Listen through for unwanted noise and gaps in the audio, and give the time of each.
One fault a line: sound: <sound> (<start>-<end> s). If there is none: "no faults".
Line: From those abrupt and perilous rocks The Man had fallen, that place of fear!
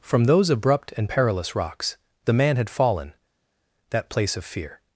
no faults